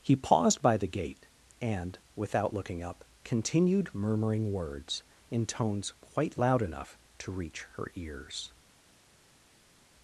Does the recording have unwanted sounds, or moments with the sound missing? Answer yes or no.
no